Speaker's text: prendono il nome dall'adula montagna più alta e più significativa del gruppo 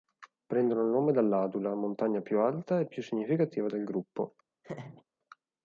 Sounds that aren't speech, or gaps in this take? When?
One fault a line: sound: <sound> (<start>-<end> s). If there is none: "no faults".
sound: laugh (4.6-5.0 s)